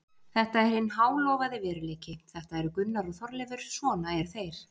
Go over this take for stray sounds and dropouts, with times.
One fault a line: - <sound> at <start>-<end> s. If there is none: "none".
none